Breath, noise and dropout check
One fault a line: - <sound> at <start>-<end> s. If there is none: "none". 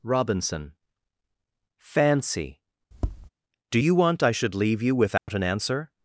- tap at 2.9-3.3 s
- dropout at 5.2-5.3 s